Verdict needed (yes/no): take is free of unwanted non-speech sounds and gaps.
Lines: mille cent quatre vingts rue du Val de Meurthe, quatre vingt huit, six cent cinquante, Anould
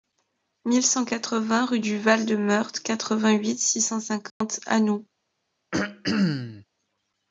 no